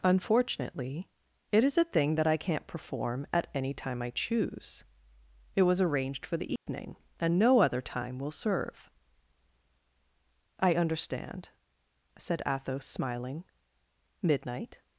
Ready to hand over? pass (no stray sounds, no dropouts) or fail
fail